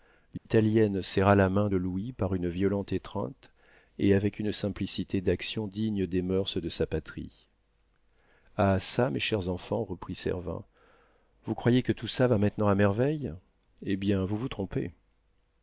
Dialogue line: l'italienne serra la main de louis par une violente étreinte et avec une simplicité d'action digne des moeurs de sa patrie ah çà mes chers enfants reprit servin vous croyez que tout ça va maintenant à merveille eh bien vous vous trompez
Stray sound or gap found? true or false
true